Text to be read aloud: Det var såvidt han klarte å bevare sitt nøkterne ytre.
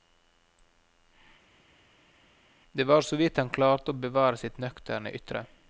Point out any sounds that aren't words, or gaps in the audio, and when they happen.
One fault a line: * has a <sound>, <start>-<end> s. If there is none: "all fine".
all fine